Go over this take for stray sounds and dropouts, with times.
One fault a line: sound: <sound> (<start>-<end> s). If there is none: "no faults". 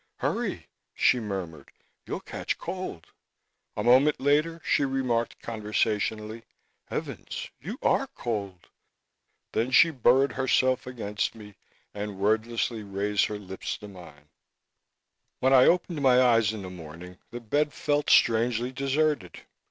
no faults